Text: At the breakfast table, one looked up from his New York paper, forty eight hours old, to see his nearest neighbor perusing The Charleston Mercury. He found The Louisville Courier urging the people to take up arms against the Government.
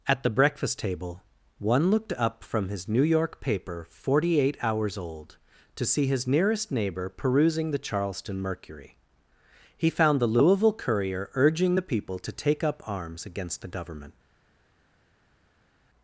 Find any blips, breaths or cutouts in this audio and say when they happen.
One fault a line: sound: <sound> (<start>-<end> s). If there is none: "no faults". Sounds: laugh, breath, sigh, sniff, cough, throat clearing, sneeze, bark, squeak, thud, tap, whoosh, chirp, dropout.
no faults